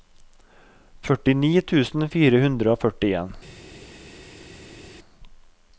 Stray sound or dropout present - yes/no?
no